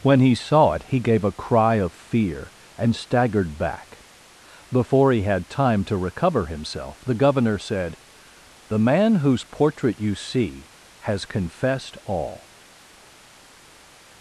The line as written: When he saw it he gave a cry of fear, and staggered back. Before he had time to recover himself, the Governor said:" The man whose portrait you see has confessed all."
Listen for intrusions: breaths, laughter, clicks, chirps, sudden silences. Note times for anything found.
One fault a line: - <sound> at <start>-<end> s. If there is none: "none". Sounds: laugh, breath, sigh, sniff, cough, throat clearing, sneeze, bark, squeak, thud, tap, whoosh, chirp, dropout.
none